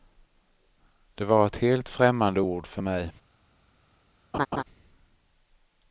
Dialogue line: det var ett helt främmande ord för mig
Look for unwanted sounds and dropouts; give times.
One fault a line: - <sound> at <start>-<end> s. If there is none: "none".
- laugh at 4.3-4.6 s